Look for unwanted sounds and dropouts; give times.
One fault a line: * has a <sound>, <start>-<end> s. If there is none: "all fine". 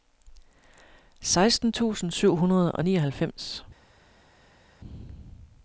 all fine